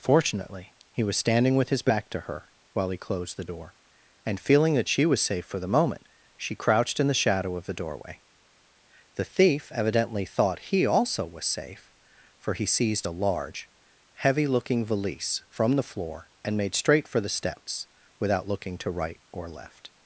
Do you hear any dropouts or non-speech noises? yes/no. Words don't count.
no